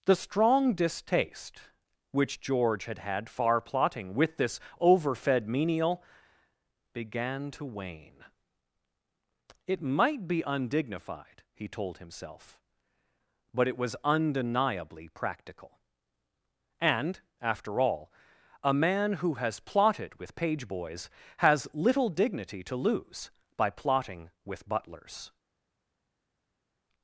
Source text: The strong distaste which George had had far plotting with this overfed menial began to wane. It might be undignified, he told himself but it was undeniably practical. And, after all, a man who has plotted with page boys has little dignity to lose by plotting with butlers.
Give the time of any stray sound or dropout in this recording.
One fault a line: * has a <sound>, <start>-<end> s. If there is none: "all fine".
all fine